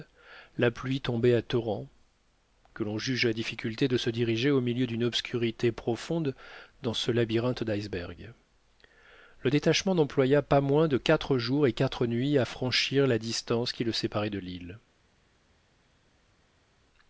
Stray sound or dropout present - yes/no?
no